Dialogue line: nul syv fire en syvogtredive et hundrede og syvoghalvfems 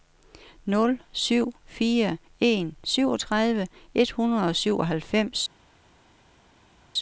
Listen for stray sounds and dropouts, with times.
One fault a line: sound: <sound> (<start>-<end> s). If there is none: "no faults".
no faults